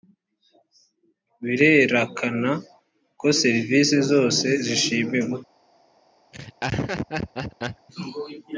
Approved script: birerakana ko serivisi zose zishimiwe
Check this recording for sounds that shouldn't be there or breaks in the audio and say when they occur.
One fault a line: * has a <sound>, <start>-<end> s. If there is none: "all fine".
* has a laugh, 6.3-7.9 s